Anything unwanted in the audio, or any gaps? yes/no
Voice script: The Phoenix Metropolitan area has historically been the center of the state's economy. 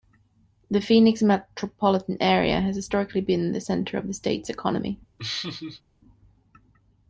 yes